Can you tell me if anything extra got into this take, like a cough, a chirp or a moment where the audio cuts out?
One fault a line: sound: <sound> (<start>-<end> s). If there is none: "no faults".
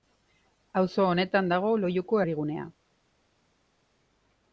no faults